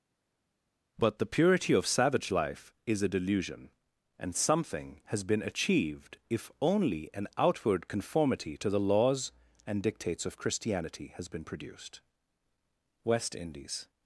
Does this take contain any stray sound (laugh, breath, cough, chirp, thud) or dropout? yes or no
no